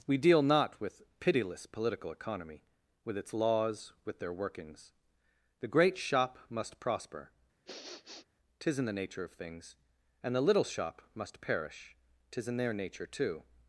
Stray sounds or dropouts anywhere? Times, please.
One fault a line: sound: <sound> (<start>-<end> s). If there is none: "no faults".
sound: sniff (7.7-8.3 s)